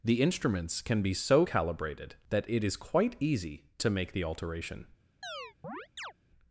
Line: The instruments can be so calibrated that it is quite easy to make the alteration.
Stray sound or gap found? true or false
true